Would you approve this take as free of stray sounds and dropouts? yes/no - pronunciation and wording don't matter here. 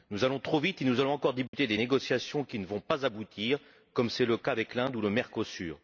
no